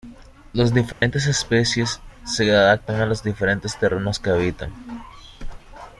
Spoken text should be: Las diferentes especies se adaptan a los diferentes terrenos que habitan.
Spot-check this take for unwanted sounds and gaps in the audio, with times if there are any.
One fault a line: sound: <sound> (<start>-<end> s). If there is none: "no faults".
sound: dropout (0.9-1.0 s)